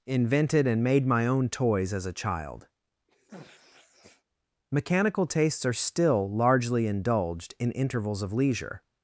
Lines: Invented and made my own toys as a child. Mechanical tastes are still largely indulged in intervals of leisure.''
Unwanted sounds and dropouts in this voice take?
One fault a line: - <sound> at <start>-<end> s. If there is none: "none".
- sniff at 3.1-4.2 s